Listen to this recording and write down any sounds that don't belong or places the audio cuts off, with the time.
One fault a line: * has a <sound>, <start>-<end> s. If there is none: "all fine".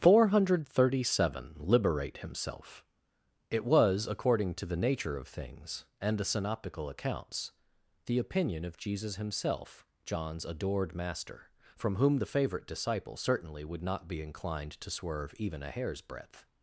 all fine